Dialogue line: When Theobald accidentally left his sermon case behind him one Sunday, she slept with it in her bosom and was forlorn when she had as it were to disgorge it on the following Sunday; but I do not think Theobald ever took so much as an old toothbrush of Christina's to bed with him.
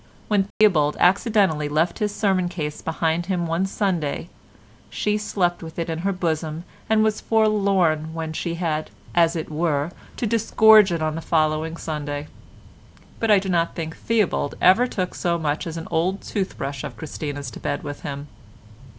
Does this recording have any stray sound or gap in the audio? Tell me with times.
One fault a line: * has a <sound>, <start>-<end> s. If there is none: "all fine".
* has a dropout, 0.5-0.6 s